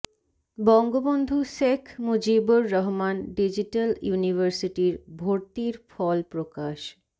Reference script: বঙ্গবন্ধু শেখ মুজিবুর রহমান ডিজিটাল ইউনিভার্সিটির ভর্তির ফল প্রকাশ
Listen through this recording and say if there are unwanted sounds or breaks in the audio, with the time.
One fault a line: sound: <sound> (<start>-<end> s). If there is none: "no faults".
no faults